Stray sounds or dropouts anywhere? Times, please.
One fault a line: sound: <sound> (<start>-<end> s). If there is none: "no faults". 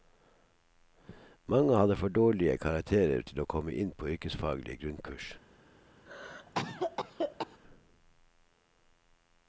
sound: cough (6.1-7.6 s)